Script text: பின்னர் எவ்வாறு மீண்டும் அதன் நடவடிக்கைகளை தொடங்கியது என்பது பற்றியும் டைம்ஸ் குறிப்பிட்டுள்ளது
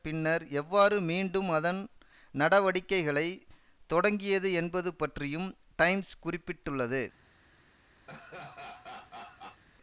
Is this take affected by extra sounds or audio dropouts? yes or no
yes